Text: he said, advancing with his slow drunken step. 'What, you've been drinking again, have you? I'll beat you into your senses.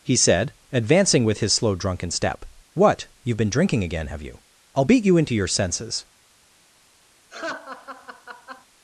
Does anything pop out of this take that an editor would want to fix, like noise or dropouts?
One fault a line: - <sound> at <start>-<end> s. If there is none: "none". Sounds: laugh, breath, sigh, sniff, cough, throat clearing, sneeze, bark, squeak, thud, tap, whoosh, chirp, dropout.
- laugh at 7.3-8.7 s